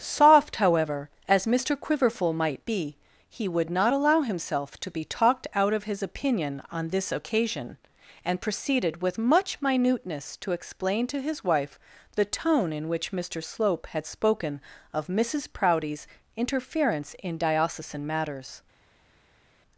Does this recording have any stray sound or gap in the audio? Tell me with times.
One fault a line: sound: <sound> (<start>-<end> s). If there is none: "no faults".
no faults